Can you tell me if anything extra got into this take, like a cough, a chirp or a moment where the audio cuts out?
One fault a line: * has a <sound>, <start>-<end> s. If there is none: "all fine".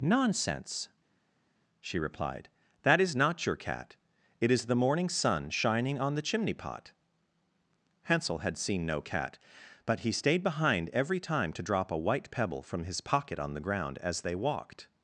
all fine